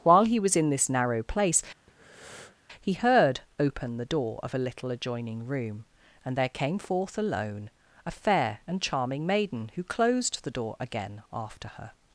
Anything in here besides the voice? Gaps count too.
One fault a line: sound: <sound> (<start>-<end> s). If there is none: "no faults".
sound: breath (1.9-2.6 s)